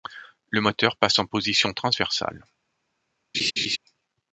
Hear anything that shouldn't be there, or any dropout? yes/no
yes